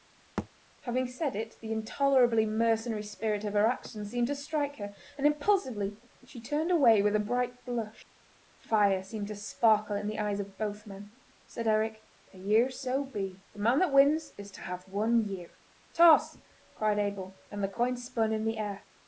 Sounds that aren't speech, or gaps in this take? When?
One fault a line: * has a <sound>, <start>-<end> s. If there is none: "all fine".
* has a thud, 0.4-0.5 s